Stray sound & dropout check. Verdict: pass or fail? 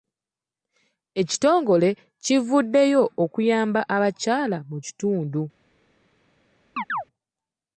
fail